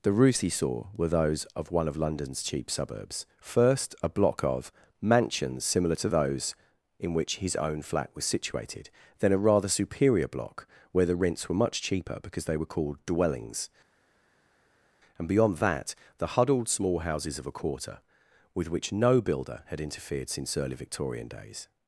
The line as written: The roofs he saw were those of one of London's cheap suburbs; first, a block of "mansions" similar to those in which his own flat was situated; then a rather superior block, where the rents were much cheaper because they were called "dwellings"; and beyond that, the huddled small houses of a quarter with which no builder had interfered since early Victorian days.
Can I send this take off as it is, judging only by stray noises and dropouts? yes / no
yes